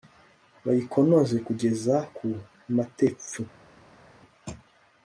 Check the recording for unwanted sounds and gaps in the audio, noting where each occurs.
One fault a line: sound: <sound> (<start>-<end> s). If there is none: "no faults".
no faults